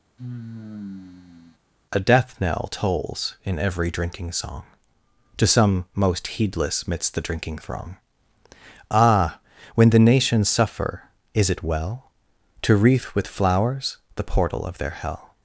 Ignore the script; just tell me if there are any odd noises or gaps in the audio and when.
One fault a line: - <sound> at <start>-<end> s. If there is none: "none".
- sigh at 0.2-1.6 s